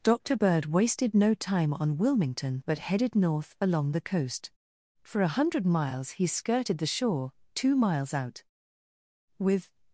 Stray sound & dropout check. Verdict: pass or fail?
pass